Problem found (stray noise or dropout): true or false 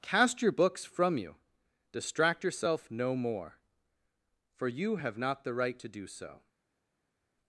false